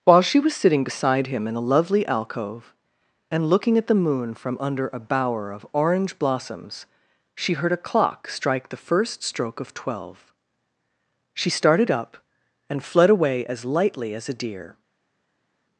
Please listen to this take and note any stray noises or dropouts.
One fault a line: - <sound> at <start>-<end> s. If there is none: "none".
none